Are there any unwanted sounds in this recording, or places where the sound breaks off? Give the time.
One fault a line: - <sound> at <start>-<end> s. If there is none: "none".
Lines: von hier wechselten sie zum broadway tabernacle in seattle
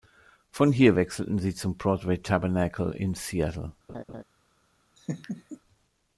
- laugh at 3.9-4.2 s
- laugh at 5.0-5.6 s